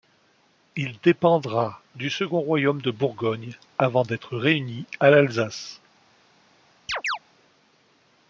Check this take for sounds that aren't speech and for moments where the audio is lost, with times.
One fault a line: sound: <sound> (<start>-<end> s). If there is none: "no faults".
sound: chirp (6.9-7.2 s)